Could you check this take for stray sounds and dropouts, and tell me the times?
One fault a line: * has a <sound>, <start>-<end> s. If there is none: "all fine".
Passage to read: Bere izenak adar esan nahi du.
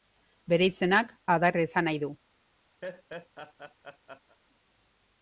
* has a laugh, 2.8-4.4 s